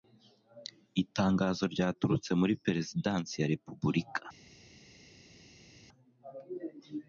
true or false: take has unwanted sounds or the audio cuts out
false